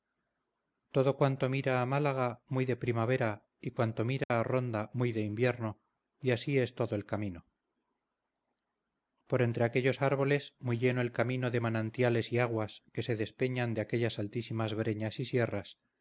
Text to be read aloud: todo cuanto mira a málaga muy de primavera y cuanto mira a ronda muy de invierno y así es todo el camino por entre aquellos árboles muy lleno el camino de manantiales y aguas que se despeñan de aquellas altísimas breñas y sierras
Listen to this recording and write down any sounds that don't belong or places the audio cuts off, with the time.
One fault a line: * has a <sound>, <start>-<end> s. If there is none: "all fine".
* has a dropout, 4.2-4.3 s